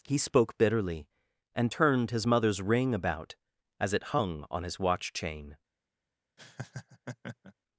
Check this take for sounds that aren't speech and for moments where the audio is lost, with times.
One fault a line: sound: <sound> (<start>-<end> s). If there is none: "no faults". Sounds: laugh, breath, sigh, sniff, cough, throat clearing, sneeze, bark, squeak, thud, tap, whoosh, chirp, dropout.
sound: laugh (6.4-7.5 s)